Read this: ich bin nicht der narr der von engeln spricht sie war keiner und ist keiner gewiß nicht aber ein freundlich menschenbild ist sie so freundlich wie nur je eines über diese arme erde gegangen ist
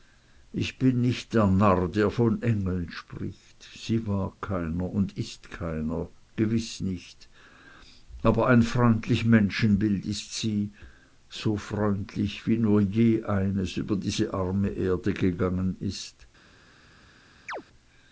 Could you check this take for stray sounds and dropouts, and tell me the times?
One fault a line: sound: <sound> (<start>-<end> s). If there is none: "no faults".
sound: chirp (17.5-17.6 s)